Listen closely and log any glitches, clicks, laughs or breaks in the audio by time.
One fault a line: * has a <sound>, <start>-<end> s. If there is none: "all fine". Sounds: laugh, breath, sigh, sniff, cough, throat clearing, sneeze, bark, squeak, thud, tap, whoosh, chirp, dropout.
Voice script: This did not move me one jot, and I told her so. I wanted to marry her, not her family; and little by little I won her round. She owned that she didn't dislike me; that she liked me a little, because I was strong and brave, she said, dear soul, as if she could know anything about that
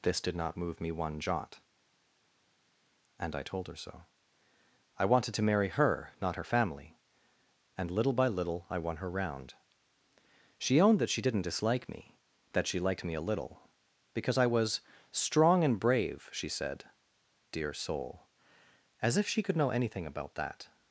all fine